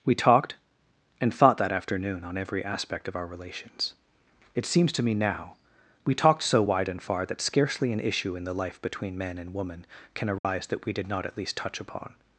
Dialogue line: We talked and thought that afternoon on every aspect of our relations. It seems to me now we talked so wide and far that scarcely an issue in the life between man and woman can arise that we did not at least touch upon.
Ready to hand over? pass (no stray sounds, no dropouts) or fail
fail